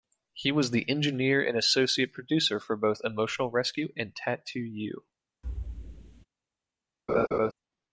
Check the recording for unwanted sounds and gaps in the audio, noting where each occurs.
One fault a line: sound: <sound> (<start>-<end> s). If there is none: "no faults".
sound: thud (5.4-6.3 s)
sound: laugh (7.1-7.5 s)